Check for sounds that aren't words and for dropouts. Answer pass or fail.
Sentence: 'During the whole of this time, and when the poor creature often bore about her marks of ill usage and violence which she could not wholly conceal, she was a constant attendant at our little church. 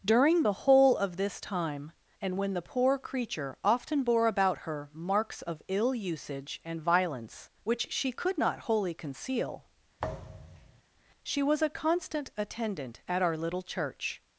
fail